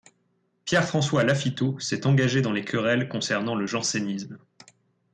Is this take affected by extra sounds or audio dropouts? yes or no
no